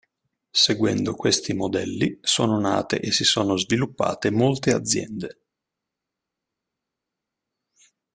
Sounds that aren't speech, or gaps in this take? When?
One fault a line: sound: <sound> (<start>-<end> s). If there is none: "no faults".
no faults